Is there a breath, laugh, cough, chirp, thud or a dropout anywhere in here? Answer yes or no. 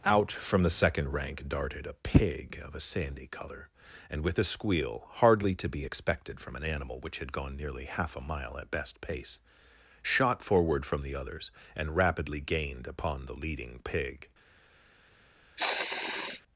yes